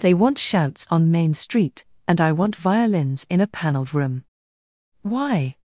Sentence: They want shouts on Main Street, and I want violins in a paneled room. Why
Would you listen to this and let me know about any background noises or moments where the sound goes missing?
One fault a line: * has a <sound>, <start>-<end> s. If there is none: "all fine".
all fine